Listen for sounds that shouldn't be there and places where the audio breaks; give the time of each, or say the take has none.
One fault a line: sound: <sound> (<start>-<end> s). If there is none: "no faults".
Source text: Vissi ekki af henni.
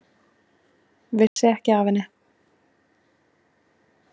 sound: dropout (1.3-1.4 s)